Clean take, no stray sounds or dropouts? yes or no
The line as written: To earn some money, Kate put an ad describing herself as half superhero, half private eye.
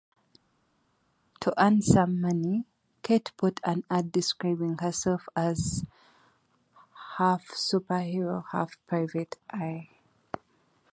yes